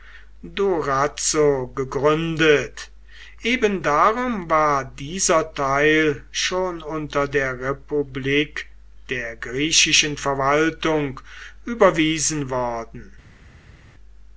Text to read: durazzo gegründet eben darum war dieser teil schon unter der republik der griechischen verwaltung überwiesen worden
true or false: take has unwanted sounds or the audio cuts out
false